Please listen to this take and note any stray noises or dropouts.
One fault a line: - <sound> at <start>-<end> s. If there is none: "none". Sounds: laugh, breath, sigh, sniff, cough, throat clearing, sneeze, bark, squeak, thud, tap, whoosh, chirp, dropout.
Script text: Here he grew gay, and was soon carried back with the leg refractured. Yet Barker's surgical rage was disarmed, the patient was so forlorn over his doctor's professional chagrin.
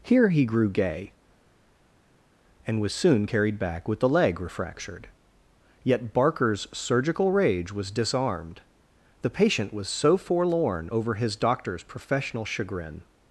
none